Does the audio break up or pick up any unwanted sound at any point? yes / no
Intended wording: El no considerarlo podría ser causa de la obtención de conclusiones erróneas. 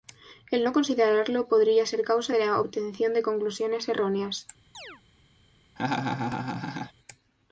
yes